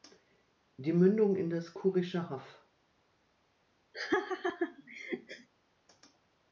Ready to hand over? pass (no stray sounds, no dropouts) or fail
fail